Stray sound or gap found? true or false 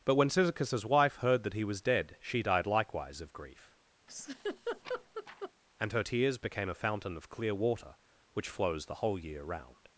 true